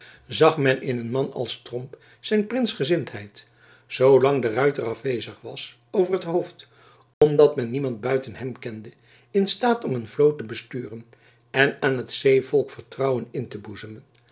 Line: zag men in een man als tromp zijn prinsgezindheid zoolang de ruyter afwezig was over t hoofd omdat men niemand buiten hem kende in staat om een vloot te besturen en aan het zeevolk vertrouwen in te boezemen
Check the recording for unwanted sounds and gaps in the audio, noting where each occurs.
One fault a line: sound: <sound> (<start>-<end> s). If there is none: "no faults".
sound: dropout (7.1-7.2 s)